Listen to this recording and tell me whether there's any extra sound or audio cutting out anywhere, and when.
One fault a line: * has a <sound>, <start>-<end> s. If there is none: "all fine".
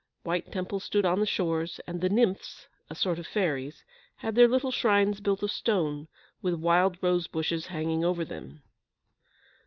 all fine